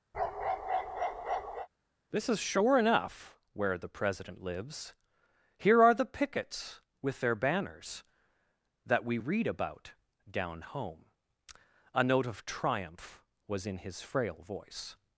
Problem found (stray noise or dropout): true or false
true